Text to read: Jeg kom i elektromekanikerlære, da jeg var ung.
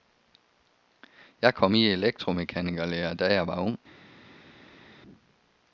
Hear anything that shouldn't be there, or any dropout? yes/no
no